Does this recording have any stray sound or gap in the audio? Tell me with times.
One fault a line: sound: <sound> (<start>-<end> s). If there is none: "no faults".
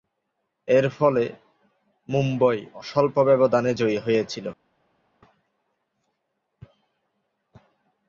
no faults